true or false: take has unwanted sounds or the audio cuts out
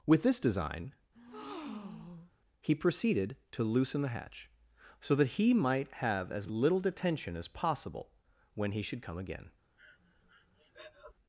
true